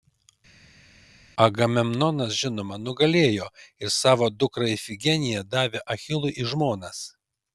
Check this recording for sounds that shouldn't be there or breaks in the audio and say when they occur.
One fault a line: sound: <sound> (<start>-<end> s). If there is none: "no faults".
no faults